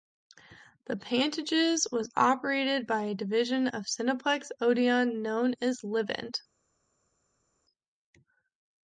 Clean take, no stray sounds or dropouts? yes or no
yes